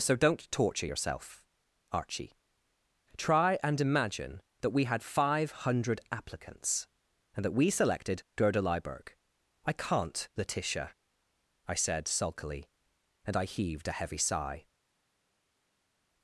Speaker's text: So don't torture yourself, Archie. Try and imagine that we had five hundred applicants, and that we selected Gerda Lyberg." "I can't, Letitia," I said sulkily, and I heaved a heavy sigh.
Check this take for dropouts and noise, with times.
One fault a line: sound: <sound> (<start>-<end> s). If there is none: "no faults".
no faults